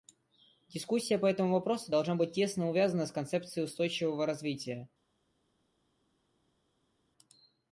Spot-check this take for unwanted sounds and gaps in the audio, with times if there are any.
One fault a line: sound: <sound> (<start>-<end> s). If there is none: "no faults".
no faults